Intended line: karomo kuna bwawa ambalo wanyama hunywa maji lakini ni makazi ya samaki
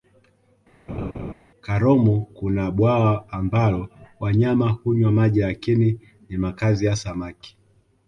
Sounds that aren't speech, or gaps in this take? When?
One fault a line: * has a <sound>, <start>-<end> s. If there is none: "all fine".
* has a laugh, 0.9-1.3 s